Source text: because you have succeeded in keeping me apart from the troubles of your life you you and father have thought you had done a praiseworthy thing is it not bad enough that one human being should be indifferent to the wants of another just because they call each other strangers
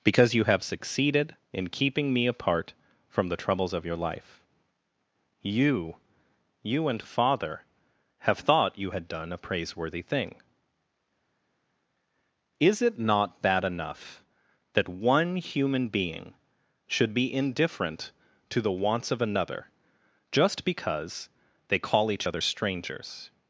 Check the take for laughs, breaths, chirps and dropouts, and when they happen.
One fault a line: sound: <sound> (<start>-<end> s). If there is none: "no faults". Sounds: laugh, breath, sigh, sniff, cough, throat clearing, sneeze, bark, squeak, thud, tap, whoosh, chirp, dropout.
no faults